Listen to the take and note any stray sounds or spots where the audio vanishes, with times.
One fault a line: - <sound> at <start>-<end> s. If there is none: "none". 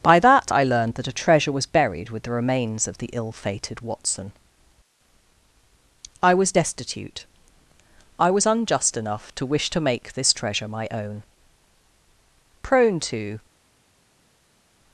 none